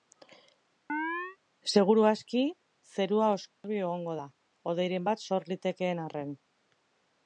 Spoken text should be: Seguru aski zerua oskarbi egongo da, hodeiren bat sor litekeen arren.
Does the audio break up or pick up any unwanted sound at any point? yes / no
yes